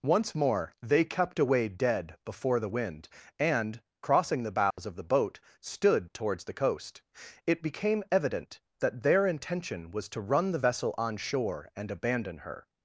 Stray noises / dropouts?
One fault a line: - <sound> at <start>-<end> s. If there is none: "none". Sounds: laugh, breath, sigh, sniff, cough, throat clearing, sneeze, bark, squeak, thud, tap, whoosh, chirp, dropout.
- dropout at 4.7-4.8 s